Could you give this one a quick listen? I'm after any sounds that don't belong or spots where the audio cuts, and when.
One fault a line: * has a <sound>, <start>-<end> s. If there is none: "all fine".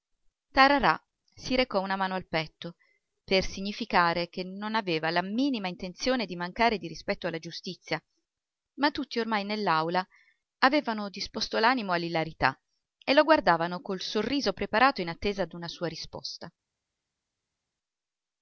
all fine